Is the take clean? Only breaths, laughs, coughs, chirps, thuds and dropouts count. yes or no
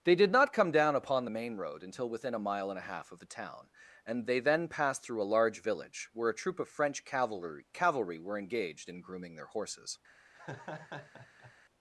no